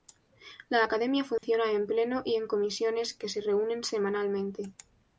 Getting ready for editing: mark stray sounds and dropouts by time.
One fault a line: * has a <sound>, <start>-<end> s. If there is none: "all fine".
* has a dropout, 1.4-1.4 s